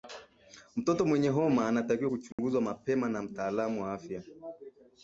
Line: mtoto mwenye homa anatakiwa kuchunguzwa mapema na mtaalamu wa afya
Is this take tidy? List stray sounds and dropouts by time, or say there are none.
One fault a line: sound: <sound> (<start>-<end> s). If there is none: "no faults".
sound: dropout (2.3-2.4 s)